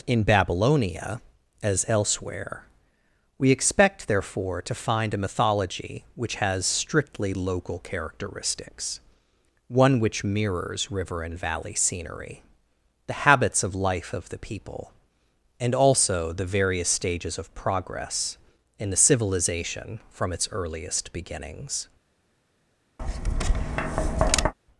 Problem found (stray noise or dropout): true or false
true